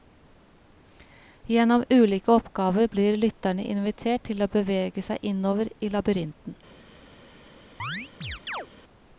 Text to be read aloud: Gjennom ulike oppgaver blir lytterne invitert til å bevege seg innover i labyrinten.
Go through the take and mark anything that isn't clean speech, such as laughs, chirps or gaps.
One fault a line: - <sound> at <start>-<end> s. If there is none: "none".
- chirp at 7.8-8.7 s